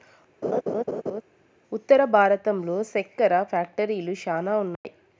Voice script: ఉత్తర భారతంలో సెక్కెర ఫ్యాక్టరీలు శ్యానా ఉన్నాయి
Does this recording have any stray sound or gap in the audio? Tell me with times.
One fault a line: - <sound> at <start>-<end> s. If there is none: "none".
- laugh at 0.4-1.2 s
- dropout at 4.8-4.8 s